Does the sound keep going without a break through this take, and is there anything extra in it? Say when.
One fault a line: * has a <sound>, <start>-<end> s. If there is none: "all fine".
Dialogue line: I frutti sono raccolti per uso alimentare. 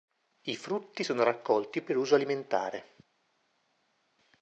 all fine